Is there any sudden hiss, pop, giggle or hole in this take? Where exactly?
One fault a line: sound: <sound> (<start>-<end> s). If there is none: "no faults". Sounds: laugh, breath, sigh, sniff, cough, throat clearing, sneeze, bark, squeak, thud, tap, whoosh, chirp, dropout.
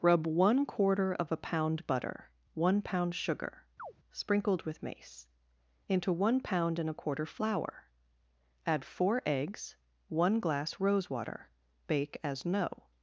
sound: chirp (3.8-3.9 s)